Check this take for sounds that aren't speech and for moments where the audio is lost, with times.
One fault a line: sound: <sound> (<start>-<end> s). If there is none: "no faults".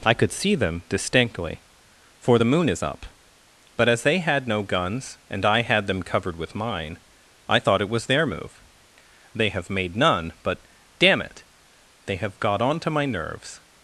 no faults